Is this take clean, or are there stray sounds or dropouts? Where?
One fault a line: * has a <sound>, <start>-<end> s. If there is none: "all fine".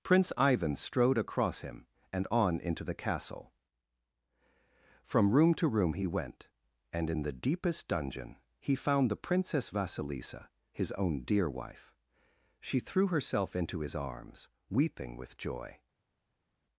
all fine